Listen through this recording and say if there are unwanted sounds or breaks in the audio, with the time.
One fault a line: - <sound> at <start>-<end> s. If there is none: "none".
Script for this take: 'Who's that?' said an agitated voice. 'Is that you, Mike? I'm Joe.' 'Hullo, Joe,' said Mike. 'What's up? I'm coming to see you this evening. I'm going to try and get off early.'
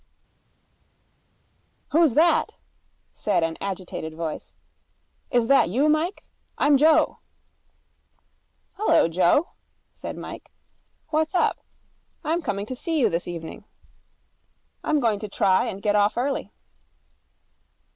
none